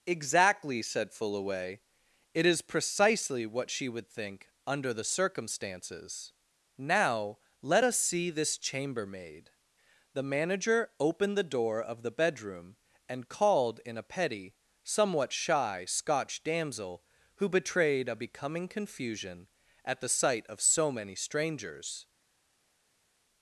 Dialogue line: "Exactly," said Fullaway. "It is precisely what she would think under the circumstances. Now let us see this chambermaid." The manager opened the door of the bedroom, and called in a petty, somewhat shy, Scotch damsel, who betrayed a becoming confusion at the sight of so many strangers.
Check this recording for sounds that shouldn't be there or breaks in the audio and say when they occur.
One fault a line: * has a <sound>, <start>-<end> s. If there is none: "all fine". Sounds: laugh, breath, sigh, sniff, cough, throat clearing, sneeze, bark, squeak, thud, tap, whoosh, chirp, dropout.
all fine